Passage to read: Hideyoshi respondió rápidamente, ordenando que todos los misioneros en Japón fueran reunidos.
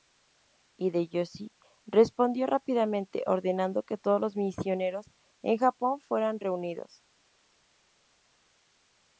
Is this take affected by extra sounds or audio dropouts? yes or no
no